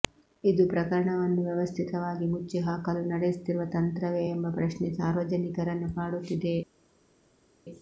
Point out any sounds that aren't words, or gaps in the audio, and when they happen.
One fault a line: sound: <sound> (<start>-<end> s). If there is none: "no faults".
no faults